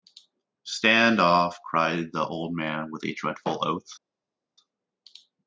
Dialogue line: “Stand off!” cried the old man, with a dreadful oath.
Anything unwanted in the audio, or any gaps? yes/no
no